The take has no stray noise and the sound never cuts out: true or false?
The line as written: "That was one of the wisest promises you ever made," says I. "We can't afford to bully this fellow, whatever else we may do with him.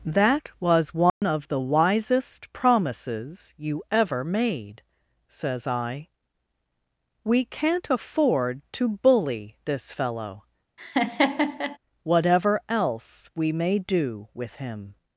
false